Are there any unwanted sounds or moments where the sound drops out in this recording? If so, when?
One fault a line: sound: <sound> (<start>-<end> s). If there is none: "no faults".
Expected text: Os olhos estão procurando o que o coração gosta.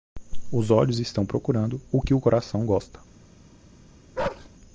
sound: bark (4.2-4.5 s)